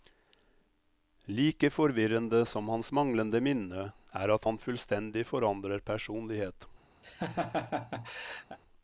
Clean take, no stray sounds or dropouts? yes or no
no